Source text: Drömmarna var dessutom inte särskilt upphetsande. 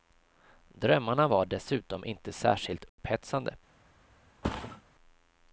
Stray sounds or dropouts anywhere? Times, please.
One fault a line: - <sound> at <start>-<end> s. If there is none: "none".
- dropout at 2.9-3.0 s
- thud at 4.4-4.8 s